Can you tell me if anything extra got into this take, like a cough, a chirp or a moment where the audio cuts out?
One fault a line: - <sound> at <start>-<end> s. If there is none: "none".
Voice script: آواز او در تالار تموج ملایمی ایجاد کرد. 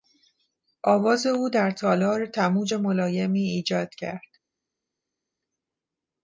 none